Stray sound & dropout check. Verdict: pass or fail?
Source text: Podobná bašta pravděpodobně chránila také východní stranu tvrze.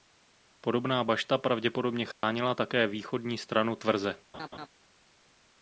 fail